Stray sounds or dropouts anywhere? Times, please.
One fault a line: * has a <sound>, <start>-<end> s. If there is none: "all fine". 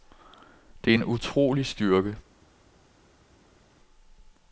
all fine